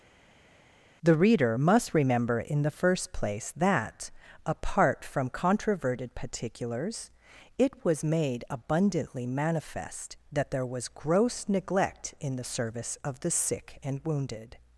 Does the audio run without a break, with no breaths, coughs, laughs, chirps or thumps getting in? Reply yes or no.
yes